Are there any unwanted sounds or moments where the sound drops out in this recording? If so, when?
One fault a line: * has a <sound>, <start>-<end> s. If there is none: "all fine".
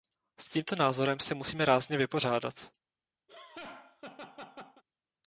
* has a laugh, 3.3-4.8 s